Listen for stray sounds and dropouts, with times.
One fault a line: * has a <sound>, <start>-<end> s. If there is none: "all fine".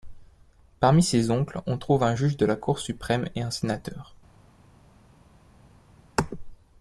all fine